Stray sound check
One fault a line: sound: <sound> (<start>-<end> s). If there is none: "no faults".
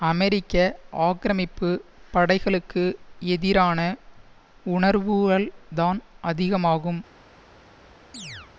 sound: chirp (8.1-8.5 s)